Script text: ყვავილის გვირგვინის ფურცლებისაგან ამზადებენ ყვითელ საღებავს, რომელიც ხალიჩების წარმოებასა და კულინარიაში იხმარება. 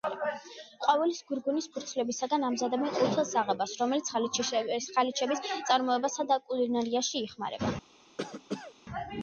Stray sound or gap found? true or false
true